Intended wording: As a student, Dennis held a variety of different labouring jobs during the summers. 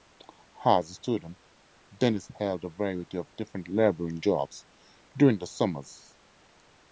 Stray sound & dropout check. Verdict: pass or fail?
pass